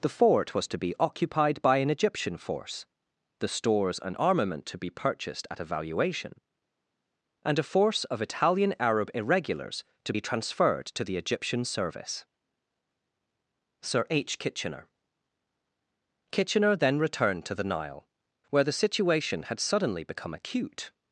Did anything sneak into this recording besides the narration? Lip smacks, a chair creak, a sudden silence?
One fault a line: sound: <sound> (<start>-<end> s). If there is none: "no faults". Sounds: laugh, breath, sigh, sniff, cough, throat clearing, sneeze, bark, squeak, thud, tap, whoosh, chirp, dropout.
no faults